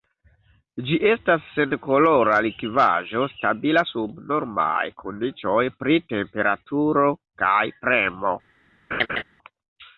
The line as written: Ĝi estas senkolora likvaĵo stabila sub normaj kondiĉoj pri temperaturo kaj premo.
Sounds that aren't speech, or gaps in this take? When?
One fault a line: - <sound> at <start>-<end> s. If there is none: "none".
- laugh at 8.9-9.2 s